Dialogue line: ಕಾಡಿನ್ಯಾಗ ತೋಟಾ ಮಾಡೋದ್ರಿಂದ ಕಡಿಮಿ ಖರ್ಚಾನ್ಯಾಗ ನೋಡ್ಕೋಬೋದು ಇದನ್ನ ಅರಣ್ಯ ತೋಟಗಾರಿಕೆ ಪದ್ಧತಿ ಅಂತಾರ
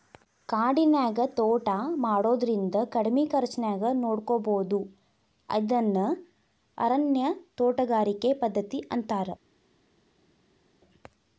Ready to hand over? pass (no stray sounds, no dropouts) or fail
pass